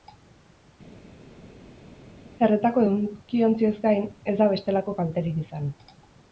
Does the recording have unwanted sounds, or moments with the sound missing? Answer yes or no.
no